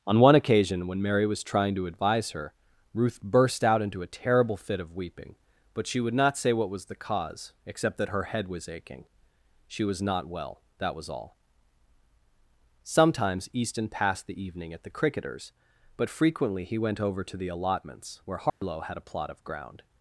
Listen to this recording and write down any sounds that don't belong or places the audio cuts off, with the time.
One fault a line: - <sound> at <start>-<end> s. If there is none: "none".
- dropout at 18.5-18.6 s